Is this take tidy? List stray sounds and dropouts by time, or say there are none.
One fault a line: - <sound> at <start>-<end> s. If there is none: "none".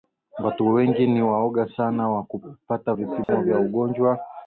- dropout at 3.2-3.3 s